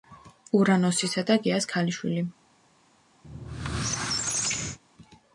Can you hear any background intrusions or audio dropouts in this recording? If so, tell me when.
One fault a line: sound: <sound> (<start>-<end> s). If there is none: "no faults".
sound: squeak (3.2-4.8 s)